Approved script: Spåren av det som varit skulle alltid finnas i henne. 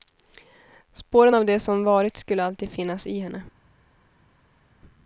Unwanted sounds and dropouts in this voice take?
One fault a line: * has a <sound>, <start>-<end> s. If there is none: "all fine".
all fine